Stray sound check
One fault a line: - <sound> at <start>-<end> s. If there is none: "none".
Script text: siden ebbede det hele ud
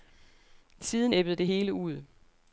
none